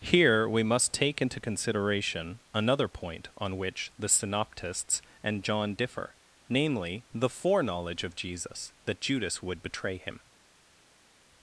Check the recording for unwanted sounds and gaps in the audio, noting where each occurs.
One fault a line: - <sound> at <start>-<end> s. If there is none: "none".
none